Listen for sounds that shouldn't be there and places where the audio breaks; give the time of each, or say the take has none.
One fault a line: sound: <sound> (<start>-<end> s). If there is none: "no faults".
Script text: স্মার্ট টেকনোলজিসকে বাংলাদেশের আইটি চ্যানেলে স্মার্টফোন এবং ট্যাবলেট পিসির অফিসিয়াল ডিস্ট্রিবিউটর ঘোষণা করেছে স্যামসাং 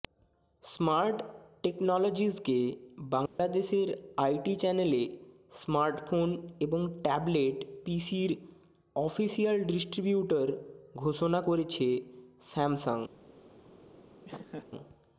sound: dropout (3.3-3.4 s)
sound: laugh (14.2-14.7 s)